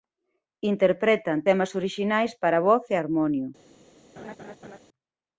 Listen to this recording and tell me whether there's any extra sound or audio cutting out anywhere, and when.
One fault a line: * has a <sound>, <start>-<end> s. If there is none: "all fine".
* has a laugh, 4.2-4.8 s